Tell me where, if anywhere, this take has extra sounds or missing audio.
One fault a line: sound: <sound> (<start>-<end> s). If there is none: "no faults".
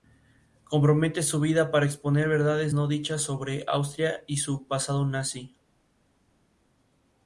no faults